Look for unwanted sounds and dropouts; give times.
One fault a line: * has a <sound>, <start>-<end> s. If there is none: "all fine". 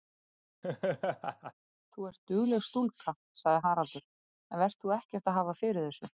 * has a laugh, 0.6-1.5 s